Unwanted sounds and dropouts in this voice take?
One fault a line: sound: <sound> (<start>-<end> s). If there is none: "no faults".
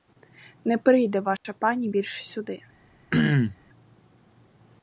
sound: dropout (1.4-1.4 s)
sound: throat clearing (3.1-3.6 s)